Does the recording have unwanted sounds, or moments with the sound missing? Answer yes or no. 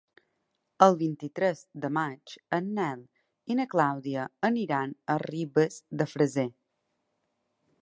no